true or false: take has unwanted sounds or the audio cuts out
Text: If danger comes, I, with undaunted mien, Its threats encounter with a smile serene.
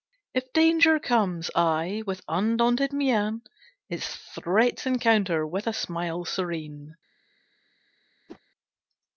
true